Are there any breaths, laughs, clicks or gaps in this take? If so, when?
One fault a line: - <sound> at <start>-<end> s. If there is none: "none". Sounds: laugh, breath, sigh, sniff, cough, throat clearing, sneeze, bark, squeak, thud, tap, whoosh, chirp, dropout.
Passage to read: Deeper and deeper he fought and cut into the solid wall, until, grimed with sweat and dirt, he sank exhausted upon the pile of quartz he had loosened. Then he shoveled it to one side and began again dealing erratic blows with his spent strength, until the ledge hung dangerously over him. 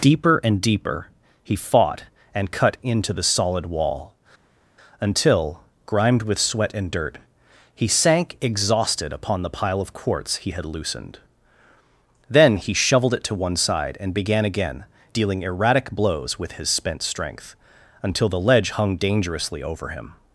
none